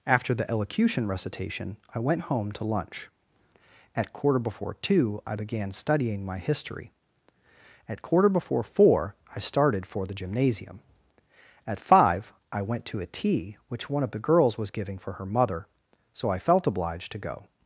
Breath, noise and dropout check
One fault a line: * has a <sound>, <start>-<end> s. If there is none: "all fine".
all fine